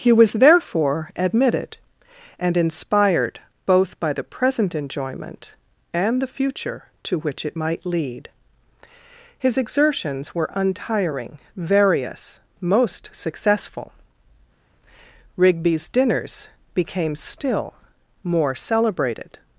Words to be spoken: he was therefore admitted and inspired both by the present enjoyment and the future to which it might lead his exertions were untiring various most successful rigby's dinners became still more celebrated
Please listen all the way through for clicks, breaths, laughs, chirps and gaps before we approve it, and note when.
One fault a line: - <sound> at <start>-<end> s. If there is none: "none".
none